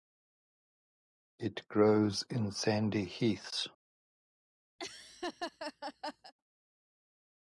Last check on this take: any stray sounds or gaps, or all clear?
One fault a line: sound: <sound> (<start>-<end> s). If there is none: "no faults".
sound: laugh (4.8-6.3 s)